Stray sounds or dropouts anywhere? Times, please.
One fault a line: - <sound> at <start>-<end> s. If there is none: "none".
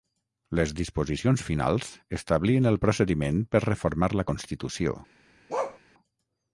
- bark at 5.5-5.8 s